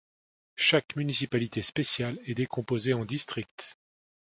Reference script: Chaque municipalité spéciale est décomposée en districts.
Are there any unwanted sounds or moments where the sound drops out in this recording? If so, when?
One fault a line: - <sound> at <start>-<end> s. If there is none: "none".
none